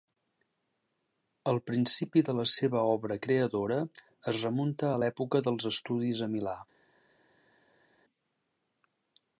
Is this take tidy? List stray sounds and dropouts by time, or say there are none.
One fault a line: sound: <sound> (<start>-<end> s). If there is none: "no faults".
no faults